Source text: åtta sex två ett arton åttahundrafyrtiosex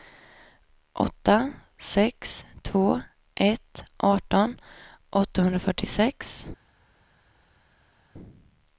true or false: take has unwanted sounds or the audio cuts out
false